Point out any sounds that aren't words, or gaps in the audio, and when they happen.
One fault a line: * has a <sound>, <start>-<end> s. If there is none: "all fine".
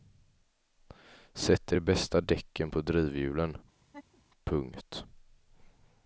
* has a laugh, 3.8-4.2 s